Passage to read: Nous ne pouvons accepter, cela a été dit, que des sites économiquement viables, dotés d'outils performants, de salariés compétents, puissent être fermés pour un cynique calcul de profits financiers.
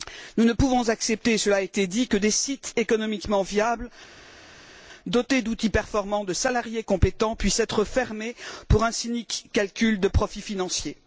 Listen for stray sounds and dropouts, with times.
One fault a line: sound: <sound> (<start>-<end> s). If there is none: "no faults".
no faults